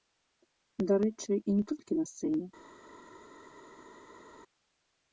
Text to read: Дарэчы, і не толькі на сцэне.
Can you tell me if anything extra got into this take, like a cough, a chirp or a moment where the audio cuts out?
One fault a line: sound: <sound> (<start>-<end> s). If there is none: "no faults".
no faults